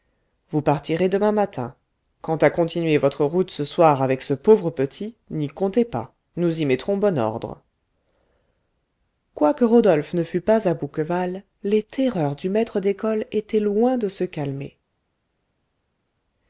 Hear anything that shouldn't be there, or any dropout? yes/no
no